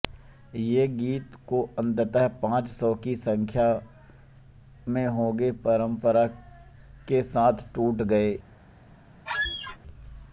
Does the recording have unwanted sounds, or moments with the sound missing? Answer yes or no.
yes